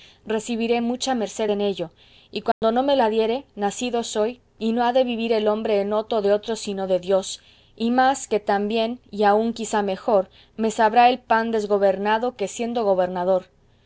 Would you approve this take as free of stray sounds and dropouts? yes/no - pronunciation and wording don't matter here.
no